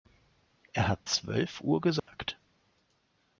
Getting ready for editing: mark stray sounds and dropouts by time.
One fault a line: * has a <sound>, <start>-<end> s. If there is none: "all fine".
* has a dropout, 2.0-2.1 s